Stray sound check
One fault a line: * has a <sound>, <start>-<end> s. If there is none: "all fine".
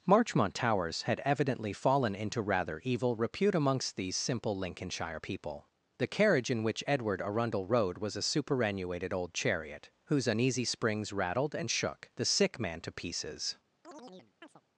* has a chirp, 13.8-14.6 s